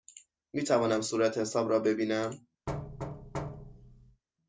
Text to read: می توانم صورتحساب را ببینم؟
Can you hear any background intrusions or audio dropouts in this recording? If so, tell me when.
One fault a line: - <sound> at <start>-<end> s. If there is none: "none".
- thud at 2.7-4.2 s